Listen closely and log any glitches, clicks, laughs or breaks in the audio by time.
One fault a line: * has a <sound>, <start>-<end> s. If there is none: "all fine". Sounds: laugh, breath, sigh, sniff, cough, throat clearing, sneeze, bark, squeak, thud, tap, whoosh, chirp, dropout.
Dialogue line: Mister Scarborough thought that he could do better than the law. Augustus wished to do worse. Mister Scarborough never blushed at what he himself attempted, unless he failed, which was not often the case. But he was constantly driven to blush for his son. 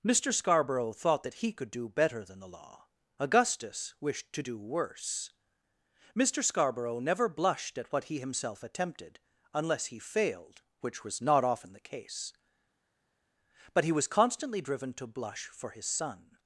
all fine